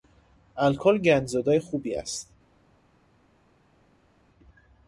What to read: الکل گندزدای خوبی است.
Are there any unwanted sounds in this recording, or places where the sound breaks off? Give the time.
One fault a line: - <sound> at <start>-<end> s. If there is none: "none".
none